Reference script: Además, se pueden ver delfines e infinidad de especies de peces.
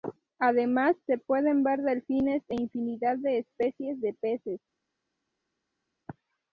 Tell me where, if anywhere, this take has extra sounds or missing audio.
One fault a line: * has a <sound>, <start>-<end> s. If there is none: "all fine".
all fine